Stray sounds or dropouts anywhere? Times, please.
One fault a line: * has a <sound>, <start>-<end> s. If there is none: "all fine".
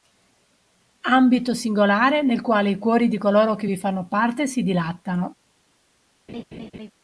* has a laugh, 6.3-6.9 s